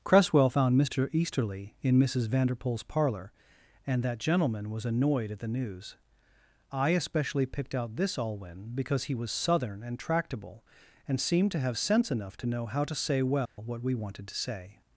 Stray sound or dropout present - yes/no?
yes